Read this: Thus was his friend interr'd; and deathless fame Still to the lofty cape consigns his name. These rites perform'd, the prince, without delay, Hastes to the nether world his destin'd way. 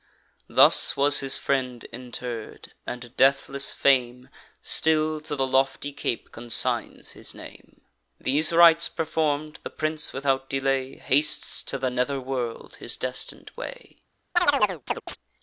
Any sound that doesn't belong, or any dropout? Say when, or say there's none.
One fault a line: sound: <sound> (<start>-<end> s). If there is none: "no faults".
sound: chirp (14.4-15.2 s)